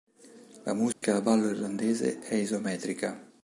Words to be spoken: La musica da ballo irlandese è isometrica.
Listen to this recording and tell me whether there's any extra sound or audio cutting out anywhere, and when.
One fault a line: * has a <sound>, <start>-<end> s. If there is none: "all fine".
* has a dropout, 0.9-1.0 s